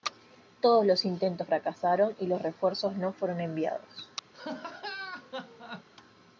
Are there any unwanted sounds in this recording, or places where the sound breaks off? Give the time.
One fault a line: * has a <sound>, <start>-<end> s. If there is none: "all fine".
* has a laugh, 4.3-5.9 s